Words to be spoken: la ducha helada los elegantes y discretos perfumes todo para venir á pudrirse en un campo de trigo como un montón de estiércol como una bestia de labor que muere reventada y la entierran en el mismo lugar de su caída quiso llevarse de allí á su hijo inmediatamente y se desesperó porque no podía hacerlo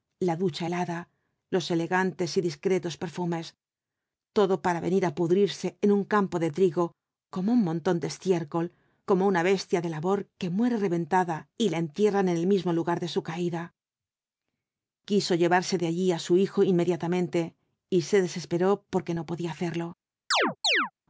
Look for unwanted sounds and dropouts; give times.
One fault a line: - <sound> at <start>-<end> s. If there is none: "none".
- chirp at 20.3-20.9 s